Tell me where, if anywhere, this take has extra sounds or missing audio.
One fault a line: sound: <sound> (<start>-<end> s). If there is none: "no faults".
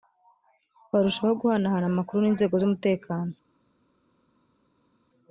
no faults